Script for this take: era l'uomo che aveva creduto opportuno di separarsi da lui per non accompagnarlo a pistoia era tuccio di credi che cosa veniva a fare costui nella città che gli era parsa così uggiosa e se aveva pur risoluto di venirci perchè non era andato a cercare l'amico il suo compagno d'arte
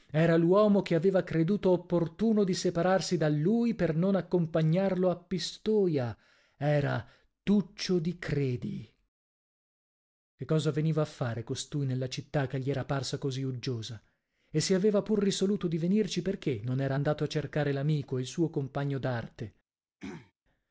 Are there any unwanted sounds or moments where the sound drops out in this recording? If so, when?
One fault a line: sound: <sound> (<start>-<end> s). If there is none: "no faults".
sound: throat clearing (20.0-20.3 s)